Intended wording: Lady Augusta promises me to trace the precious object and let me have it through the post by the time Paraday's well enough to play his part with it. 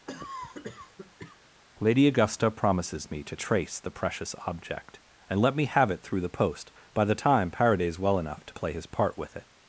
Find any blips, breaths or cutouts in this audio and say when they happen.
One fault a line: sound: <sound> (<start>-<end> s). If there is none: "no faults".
sound: cough (0.1-1.4 s)